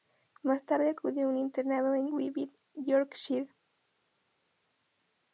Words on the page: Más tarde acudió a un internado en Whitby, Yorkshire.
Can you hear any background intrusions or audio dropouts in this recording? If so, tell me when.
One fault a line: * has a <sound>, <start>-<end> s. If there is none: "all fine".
all fine